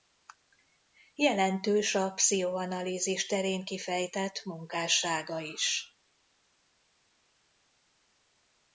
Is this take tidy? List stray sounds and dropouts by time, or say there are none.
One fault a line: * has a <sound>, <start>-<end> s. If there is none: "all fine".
all fine